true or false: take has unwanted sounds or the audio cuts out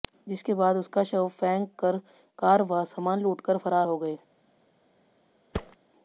true